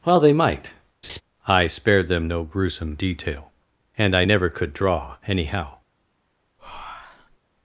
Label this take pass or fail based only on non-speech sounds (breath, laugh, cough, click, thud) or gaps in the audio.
fail